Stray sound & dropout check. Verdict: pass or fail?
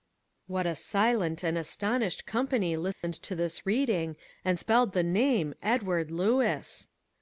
fail